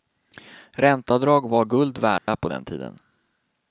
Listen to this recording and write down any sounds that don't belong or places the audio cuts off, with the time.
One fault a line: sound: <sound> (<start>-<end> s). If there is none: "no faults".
sound: dropout (2.2-2.3 s)